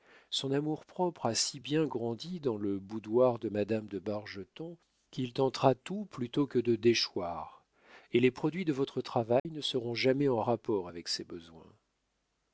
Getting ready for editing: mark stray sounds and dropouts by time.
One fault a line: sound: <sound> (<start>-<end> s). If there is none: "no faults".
sound: dropout (9.4-9.5 s)